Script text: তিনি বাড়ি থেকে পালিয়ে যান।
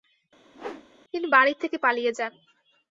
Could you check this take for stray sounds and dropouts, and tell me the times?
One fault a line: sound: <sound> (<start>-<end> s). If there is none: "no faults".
sound: whoosh (0.5-0.9 s)